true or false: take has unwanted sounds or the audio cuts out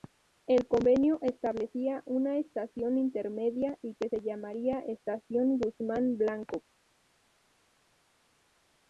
false